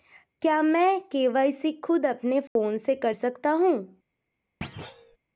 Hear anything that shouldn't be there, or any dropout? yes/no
yes